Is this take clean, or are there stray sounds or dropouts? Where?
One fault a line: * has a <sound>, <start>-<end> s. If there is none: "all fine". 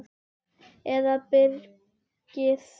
all fine